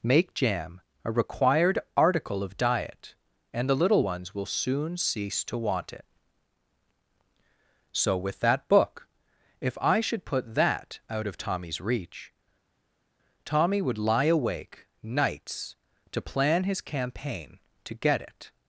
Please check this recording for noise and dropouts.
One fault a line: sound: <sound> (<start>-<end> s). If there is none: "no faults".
no faults